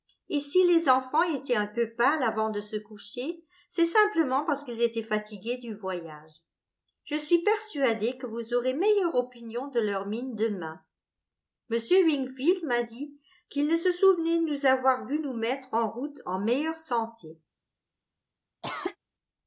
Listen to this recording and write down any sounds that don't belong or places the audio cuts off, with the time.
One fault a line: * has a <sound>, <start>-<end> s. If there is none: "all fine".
* has a cough, 18.6-19.0 s